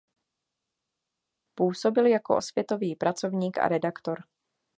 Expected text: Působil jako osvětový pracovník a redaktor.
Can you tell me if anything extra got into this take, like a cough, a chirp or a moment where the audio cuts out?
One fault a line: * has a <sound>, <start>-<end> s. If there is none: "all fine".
all fine